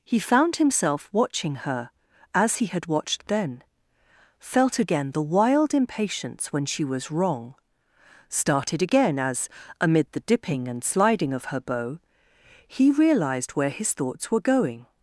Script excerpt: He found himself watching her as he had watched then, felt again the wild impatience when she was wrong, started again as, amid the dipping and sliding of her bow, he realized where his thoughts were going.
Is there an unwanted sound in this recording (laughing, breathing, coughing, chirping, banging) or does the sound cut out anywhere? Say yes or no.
no